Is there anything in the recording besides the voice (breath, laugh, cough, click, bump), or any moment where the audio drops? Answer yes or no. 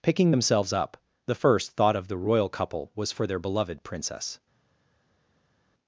no